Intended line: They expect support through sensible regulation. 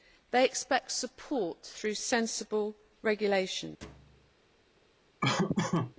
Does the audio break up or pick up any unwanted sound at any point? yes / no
yes